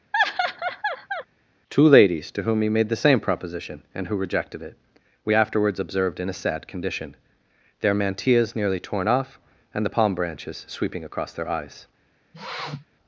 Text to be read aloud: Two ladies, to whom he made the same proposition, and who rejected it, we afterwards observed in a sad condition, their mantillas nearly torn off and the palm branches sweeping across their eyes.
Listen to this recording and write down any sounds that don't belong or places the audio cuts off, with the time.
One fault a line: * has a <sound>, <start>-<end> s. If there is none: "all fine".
* has a laugh, 0.1-1.3 s
* has a sniff, 12.3-12.9 s